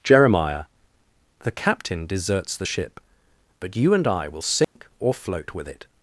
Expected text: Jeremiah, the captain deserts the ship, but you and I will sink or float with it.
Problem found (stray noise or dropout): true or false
true